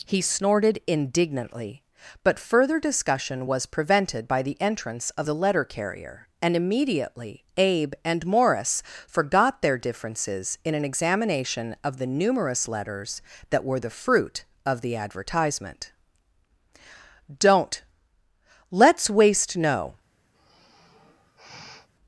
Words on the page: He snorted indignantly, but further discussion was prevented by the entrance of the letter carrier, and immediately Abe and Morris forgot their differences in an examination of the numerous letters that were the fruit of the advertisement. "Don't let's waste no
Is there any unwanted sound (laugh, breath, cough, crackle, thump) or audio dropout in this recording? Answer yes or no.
yes